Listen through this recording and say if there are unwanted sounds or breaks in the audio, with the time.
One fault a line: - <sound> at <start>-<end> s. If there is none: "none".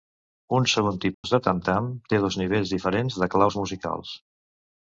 - dropout at 1.1-1.2 s